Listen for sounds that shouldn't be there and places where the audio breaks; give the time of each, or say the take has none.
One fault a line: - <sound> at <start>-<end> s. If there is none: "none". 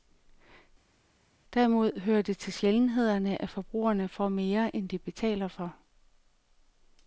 none